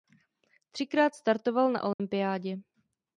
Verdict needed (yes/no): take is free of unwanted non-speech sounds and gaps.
no